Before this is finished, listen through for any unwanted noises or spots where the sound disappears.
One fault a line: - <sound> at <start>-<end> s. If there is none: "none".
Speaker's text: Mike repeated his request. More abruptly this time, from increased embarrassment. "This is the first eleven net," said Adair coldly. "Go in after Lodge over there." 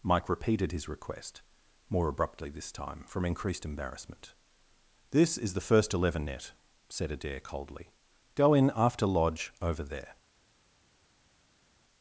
none